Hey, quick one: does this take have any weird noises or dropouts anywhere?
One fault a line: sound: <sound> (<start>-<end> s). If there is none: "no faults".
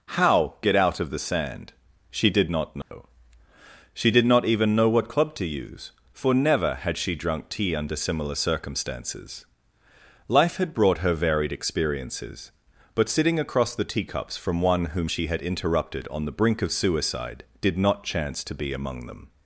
sound: dropout (2.8-2.9 s)